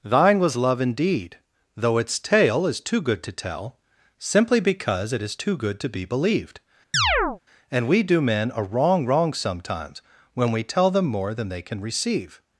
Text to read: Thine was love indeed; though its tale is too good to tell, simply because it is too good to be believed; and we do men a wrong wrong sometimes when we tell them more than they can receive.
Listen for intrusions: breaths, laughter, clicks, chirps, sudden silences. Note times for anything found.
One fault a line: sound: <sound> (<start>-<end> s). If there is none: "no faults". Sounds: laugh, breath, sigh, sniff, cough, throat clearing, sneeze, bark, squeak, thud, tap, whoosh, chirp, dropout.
sound: chirp (6.9-7.4 s)